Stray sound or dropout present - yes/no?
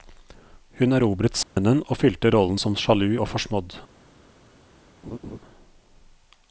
yes